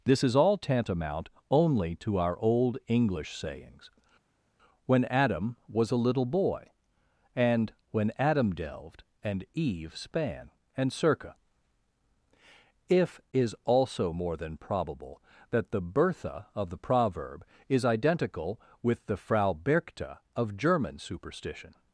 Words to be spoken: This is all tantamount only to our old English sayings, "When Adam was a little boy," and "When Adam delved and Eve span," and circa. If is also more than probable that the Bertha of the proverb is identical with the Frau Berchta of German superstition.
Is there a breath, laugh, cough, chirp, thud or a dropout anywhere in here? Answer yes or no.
no